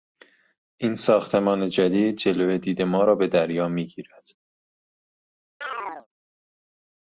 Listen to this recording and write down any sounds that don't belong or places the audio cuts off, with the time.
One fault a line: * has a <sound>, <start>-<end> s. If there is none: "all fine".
* has a chirp, 5.6-6.1 s